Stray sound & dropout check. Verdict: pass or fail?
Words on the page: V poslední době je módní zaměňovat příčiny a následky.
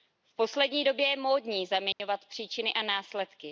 fail